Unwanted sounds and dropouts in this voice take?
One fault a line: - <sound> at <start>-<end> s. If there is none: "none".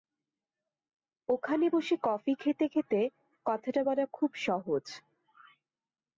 none